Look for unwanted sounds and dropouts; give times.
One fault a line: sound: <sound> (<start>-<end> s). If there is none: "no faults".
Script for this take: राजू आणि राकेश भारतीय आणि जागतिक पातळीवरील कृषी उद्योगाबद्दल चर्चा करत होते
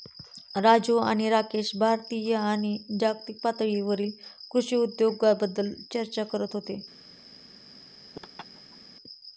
sound: laugh (8.1-8.8 s)